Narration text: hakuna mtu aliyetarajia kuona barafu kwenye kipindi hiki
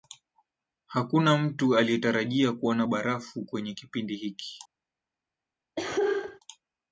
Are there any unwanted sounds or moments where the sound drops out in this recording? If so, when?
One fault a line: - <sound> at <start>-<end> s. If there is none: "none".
- cough at 5.8-6.4 s